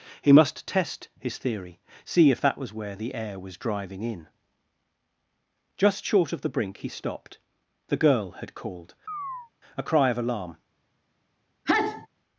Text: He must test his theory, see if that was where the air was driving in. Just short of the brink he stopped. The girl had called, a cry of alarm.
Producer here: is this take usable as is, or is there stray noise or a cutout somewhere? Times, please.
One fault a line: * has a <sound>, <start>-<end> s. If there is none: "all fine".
* has a chirp, 9.1-9.5 s
* has a sneeze, 11.7-12.1 s